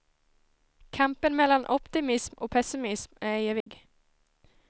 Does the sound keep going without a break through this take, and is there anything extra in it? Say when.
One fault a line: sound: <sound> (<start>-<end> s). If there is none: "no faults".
sound: dropout (3.6-3.7 s)